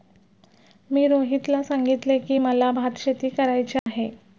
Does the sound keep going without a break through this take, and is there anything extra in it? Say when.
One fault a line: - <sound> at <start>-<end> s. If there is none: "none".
- dropout at 3.8-3.9 s